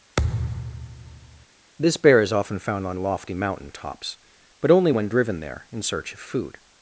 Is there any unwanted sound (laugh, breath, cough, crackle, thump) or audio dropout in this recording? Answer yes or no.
yes